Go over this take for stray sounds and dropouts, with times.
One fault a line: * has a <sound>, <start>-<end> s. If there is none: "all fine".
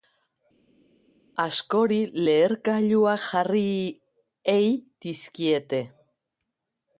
all fine